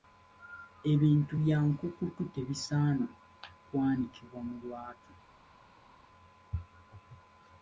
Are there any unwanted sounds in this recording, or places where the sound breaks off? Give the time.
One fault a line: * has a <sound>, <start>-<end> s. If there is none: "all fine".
all fine